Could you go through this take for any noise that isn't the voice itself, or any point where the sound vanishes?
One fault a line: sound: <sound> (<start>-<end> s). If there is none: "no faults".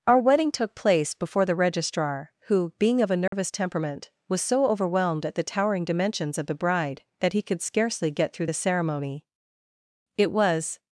sound: dropout (3.3-3.3 s)